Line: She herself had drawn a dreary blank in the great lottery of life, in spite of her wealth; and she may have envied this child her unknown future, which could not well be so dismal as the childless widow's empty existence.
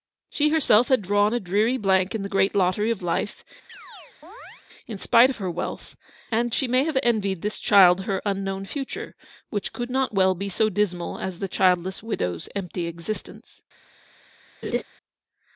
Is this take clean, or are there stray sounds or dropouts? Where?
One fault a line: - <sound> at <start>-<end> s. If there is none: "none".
- chirp at 3.7-4.6 s
- laugh at 14.6-14.8 s